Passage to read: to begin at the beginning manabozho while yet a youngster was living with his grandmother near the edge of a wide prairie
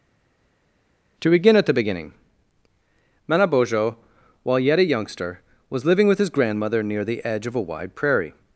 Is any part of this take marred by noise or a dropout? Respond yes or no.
no